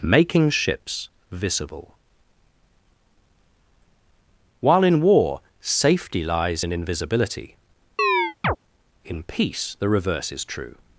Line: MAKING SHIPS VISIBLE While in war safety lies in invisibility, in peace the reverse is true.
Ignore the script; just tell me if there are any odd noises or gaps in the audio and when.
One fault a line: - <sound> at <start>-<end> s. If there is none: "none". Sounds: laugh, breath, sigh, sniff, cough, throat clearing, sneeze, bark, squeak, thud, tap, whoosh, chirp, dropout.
- chirp at 8.0-8.6 s